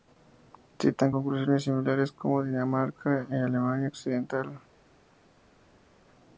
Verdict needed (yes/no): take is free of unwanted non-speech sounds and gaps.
yes